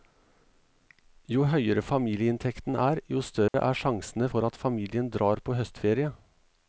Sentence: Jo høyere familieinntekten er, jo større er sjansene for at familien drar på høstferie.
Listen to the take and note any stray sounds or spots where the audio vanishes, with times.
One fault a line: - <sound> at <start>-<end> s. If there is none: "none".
- dropout at 3.5-3.5 s